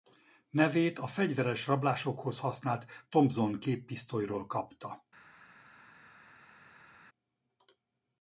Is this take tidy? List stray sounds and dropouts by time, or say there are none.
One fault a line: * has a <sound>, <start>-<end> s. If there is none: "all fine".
all fine